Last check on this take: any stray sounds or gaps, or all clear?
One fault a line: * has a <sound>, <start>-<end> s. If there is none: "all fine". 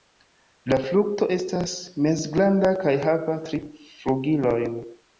all fine